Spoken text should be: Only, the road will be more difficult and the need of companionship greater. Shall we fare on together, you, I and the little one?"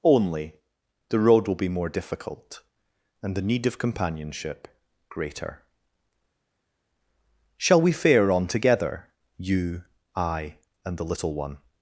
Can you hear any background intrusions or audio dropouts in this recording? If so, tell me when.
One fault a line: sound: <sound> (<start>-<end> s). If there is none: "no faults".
no faults